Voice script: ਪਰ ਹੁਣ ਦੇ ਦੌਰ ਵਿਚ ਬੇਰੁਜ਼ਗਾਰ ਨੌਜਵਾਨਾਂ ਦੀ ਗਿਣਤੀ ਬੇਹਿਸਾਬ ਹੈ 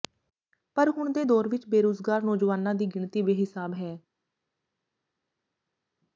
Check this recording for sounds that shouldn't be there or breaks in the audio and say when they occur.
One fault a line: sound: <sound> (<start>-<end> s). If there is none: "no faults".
no faults